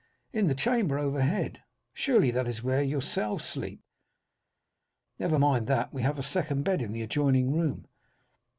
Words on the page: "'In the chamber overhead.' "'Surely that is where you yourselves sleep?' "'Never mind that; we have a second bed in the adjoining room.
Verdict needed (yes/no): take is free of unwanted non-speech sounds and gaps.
yes